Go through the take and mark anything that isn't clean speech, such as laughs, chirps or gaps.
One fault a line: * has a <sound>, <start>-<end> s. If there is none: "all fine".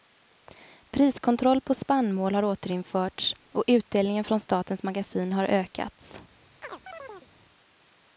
* has a chirp, 6.6-7.3 s